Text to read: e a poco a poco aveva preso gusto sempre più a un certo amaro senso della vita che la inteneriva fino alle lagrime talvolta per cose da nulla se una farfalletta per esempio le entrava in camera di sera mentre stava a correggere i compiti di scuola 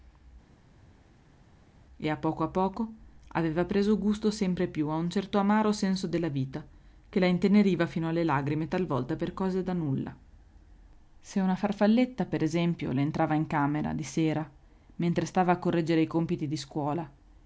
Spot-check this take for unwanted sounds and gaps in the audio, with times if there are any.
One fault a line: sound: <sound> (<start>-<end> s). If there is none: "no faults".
no faults